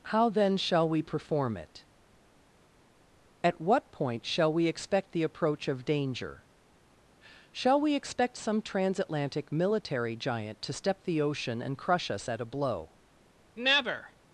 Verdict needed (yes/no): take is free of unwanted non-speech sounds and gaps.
yes